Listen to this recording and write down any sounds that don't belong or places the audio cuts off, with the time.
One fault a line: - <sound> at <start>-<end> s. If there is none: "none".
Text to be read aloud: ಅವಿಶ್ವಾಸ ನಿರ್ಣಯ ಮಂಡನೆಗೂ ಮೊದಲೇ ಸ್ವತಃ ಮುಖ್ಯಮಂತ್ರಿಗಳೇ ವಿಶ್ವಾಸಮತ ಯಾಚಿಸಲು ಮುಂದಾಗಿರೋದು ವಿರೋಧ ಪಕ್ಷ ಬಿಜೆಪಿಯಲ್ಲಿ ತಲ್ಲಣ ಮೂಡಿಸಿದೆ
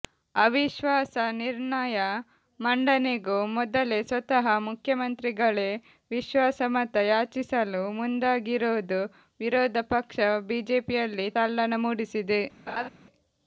- laugh at 12.7-12.9 s